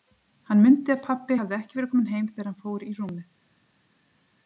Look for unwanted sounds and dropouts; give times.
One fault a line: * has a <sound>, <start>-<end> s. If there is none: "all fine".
all fine